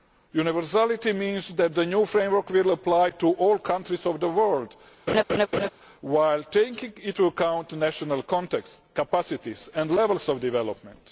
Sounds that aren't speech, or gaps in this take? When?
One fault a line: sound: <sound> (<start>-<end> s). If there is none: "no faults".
sound: laugh (5.1-5.7 s)